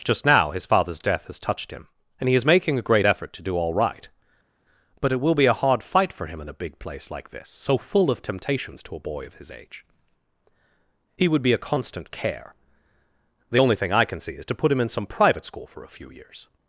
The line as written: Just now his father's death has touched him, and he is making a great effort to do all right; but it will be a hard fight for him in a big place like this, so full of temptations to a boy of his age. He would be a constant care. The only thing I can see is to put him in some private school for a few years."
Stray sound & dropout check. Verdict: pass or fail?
pass